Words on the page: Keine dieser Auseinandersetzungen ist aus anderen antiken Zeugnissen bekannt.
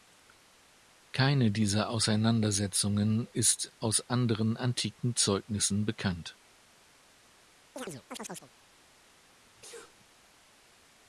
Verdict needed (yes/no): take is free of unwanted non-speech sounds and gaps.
no